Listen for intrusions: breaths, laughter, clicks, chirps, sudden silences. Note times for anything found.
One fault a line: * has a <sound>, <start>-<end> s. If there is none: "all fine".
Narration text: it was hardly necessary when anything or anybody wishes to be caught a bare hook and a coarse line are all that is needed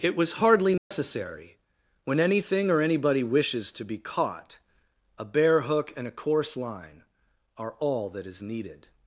* has a dropout, 0.8-0.9 s